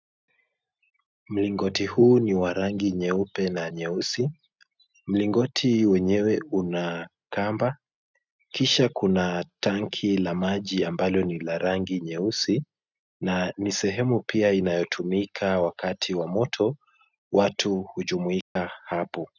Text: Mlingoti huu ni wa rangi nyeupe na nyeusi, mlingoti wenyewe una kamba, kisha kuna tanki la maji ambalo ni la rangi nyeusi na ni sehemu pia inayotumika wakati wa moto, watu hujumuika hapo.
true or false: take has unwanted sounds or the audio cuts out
true